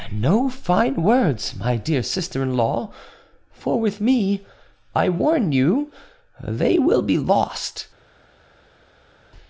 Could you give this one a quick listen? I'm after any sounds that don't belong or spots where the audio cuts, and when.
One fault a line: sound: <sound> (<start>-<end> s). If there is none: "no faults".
no faults